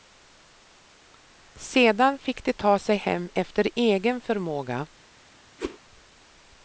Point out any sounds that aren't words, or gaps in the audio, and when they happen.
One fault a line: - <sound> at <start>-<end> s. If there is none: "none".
- whoosh at 5.6-5.8 s